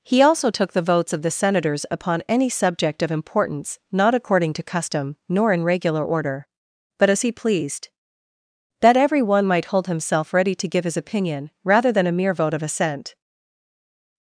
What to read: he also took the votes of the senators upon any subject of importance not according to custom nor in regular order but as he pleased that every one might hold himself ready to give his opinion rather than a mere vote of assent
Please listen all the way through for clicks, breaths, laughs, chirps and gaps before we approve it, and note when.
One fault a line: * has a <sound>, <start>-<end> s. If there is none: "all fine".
all fine